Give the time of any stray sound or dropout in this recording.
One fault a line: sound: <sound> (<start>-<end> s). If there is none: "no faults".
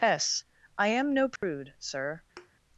sound: dropout (1.4-1.4 s)
sound: thud (2.4-2.5 s)